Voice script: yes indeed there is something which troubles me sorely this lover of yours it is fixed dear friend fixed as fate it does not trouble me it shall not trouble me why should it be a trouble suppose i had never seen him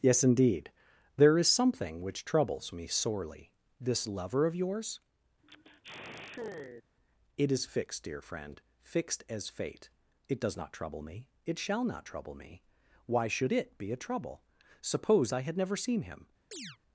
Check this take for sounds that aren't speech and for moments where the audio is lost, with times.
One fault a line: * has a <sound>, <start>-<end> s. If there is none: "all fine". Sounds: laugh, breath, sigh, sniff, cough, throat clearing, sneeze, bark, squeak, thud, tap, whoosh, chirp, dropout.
* has a sigh, 5.4-6.8 s
* has a chirp, 16.5-16.8 s